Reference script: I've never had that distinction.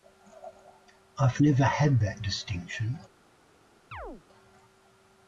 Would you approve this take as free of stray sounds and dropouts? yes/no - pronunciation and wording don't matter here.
no